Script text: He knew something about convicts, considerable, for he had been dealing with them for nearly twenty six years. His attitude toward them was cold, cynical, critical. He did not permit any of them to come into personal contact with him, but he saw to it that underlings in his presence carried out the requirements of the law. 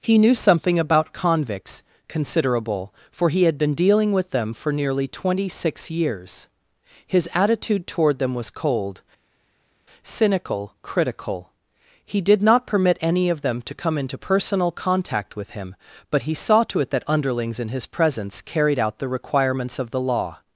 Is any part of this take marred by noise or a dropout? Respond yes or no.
no